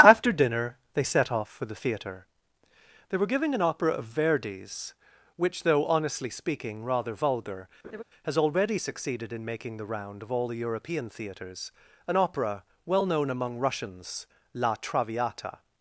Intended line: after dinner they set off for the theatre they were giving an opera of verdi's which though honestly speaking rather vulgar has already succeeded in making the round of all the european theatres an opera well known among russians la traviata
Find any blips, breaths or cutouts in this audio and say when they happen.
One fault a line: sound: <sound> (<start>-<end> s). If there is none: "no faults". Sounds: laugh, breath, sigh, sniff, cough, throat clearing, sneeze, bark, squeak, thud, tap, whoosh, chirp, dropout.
sound: laugh (7.8-8.0 s)